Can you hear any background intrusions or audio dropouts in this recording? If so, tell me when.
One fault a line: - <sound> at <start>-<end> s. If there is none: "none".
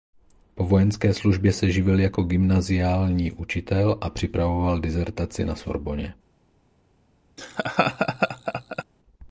- laugh at 7.4-8.8 s